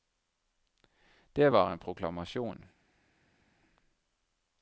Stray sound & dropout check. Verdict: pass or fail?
pass